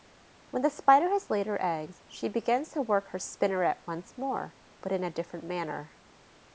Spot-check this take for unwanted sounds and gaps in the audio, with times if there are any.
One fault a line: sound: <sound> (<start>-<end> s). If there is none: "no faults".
no faults